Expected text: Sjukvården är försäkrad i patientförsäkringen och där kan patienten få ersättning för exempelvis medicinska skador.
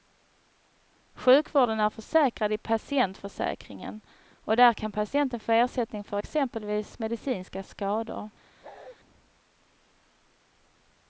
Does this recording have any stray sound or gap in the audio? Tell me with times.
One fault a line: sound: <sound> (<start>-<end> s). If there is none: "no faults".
sound: bark (8.6-9.0 s)